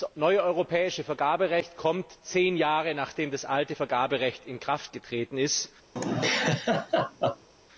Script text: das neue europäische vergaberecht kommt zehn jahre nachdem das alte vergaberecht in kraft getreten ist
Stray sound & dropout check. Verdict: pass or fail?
fail